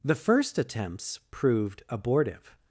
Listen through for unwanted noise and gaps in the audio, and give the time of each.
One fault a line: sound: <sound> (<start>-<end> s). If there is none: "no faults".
no faults